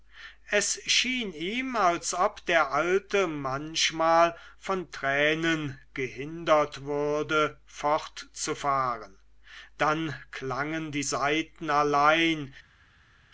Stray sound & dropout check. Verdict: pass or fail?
pass